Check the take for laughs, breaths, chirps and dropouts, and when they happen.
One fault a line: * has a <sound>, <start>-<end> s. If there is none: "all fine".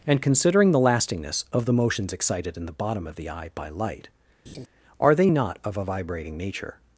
* has a laugh, 4.5-4.7 s